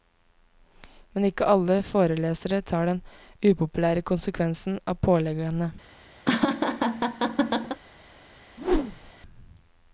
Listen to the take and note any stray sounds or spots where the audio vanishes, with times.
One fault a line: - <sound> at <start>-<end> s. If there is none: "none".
- laugh at 6.3-7.8 s
- whoosh at 8.6-9.1 s